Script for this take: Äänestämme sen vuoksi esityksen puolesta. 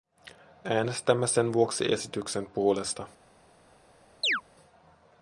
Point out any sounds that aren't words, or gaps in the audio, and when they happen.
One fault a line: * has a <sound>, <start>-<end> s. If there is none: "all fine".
* has a chirp, 4.2-4.4 s